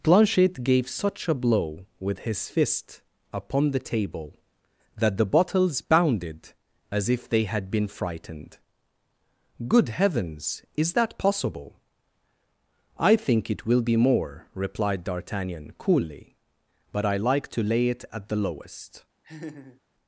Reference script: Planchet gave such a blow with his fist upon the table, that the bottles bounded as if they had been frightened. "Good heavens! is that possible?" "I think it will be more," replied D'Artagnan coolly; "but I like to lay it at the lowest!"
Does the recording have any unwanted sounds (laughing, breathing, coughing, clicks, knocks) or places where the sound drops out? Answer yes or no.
yes